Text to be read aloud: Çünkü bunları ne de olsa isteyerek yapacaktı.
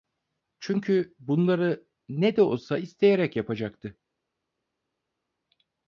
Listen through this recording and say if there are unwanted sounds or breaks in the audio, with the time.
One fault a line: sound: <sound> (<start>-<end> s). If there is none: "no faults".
no faults